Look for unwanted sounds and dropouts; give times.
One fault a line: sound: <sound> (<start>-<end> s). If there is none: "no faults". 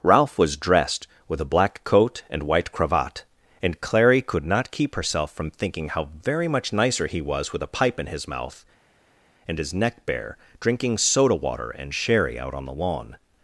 no faults